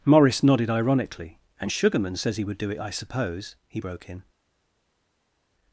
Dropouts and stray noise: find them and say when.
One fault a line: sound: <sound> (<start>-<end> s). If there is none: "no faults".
no faults